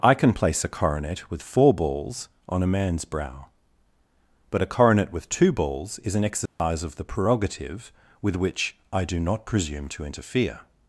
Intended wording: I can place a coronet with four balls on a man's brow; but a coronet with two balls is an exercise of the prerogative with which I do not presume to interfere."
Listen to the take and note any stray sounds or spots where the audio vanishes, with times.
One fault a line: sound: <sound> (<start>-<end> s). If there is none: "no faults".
sound: dropout (6.5-6.6 s)